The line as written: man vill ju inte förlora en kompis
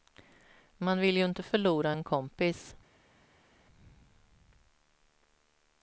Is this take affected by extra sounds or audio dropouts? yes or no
no